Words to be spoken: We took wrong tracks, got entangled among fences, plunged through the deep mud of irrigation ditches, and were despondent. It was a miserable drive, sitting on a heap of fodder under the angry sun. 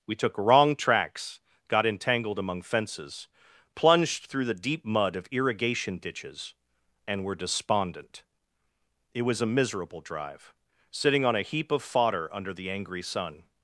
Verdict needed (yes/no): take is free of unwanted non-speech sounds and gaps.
yes